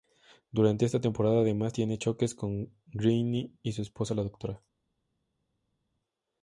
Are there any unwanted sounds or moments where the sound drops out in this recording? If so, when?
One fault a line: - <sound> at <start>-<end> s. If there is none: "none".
none